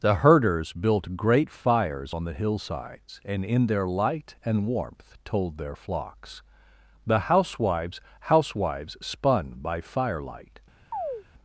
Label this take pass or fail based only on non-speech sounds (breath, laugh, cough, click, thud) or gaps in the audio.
fail